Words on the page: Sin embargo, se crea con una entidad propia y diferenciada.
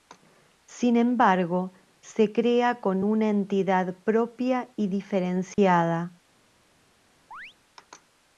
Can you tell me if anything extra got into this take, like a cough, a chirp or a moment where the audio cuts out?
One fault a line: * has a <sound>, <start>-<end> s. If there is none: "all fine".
* has a dropout, 5.5-5.6 s
* has a chirp, 7.3-7.5 s